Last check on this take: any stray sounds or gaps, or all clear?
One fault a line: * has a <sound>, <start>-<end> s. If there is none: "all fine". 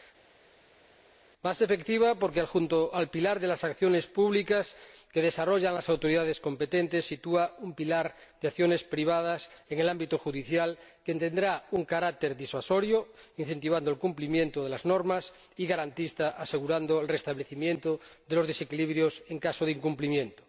all fine